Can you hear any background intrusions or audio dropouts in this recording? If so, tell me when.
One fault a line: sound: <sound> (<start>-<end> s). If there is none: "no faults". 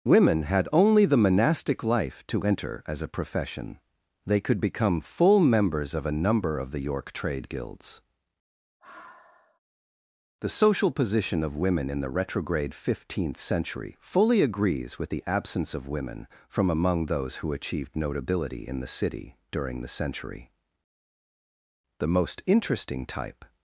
sound: sigh (8.8-9.6 s)